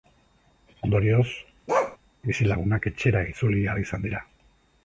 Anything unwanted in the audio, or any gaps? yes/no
yes